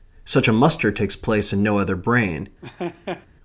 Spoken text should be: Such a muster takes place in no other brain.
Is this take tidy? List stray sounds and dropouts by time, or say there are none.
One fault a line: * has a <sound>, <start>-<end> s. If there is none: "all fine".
* has a laugh, 2.6-3.3 s